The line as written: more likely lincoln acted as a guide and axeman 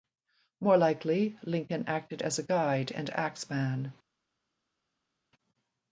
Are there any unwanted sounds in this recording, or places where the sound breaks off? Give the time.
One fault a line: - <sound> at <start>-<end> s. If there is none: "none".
none